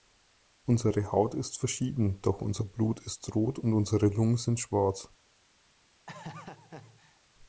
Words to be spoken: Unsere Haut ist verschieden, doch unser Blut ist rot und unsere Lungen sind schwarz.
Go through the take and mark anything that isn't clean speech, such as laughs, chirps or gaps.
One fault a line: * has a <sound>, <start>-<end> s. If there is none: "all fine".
* has a laugh, 6.1-7.2 s